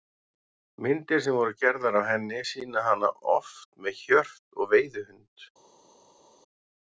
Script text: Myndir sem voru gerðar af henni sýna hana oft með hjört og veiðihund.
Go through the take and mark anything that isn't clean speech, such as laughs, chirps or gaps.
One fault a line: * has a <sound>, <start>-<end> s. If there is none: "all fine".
all fine